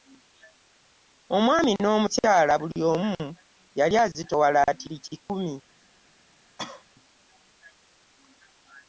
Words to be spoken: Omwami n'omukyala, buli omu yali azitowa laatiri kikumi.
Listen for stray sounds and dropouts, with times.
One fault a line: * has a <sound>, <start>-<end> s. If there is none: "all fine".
* has a cough, 6.6-6.8 s